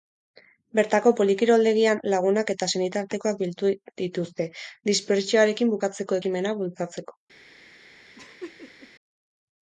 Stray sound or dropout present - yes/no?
yes